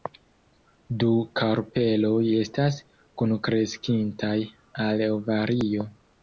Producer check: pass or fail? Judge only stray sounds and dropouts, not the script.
pass